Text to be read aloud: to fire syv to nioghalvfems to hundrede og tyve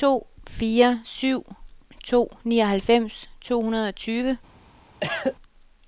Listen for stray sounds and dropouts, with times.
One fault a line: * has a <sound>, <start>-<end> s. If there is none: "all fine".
* has a cough, 5.0-5.4 s